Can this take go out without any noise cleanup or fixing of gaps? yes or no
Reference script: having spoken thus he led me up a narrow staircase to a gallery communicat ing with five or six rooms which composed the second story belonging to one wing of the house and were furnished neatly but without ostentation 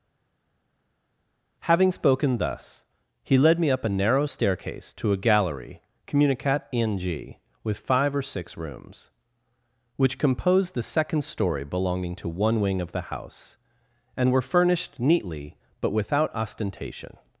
yes